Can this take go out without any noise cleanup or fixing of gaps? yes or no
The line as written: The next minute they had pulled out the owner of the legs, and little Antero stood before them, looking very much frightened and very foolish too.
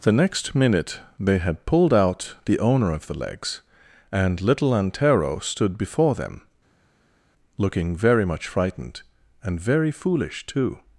yes